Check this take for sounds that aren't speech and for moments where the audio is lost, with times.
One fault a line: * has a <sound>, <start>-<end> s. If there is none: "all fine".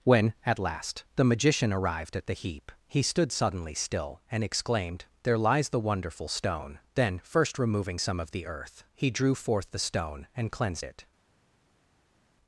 all fine